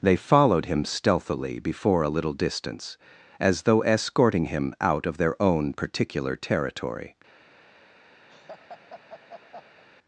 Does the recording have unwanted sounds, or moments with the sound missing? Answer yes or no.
yes